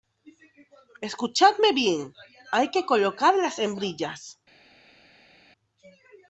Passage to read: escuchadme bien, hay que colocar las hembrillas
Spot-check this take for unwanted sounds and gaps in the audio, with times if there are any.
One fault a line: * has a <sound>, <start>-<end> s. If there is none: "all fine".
all fine